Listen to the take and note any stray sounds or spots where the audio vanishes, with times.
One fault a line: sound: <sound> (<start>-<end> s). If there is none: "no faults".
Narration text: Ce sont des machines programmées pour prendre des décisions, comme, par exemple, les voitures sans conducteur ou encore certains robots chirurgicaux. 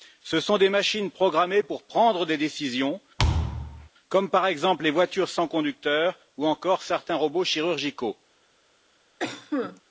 sound: thud (3.2-3.9 s)
sound: cough (9.2-9.8 s)